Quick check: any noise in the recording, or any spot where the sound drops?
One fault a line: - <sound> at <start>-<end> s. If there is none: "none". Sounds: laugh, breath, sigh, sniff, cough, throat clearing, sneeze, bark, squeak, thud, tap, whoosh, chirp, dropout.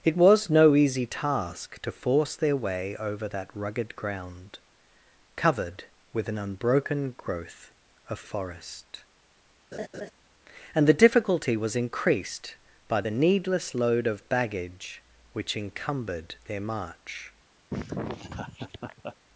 - laugh at 9.7-10.1 s
- laugh at 17.7-19.2 s